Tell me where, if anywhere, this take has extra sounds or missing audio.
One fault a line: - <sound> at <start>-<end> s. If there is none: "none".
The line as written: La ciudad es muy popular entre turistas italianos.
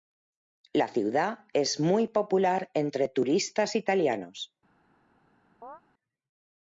- chirp at 5.6-5.8 s